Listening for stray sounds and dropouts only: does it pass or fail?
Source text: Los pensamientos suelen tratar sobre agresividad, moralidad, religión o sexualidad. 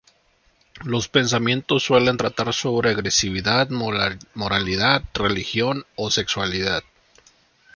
pass